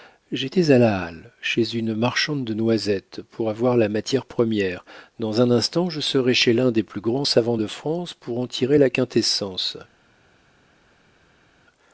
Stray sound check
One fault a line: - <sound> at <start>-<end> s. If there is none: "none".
none